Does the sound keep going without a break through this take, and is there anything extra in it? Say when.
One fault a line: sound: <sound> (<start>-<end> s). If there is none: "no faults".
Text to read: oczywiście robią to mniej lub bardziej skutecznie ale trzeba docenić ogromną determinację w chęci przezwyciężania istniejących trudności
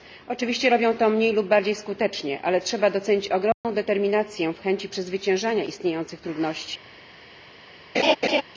sound: dropout (3.5-3.6 s)
sound: laugh (7.9-8.4 s)